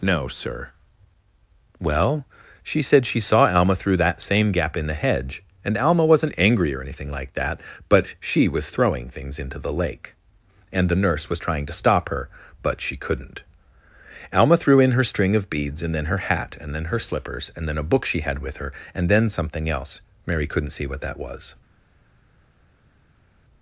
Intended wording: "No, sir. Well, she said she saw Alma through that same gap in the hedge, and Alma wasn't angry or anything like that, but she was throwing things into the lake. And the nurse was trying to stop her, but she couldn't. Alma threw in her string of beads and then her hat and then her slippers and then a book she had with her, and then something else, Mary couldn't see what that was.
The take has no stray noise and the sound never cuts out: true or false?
true